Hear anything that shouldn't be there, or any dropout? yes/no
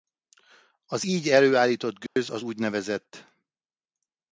yes